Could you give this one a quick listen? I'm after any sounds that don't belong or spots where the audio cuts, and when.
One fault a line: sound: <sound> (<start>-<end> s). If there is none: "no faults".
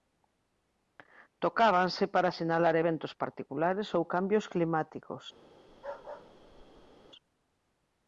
sound: bark (5.7-7.1 s)